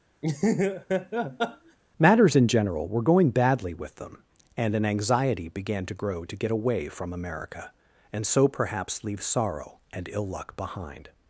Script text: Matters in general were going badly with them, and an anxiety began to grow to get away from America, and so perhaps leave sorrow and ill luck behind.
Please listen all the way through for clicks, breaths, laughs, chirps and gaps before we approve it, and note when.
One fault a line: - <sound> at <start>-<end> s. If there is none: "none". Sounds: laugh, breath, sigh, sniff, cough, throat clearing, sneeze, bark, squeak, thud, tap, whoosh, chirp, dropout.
- laugh at 0.2-1.8 s